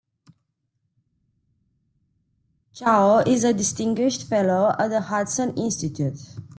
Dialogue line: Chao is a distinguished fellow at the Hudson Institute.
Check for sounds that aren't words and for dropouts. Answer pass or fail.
pass